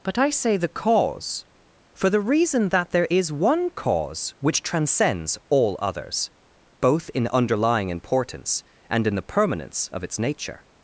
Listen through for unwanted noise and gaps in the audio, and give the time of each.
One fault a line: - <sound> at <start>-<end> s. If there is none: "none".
none